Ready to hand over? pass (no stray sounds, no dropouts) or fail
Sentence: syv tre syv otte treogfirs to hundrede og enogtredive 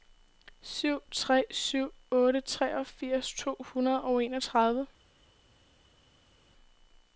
pass